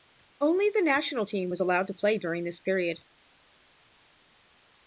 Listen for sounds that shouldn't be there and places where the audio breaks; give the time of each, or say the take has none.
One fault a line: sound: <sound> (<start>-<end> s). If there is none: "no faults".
no faults